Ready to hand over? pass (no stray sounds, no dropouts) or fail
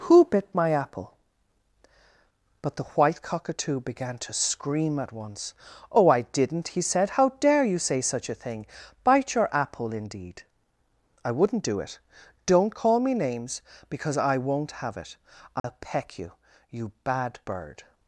fail